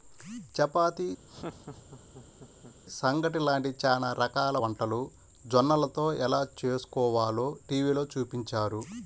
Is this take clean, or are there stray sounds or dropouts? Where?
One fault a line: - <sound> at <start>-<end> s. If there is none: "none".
- laugh at 1.3-2.8 s